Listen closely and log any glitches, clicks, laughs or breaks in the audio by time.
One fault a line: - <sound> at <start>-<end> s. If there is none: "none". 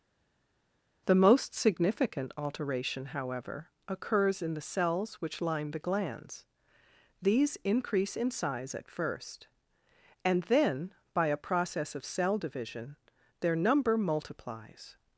none